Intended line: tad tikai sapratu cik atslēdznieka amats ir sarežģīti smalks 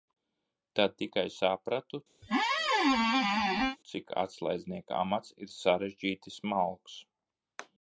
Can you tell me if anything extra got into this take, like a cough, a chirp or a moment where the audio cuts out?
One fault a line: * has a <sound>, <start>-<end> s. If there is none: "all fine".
* has a squeak, 2.2-3.8 s